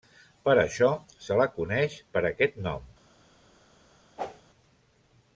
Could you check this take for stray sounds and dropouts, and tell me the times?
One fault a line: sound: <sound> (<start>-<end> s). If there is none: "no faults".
sound: whoosh (4.2-4.4 s)